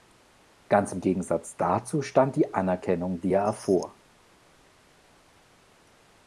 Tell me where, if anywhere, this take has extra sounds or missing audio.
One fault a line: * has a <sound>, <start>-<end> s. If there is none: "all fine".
all fine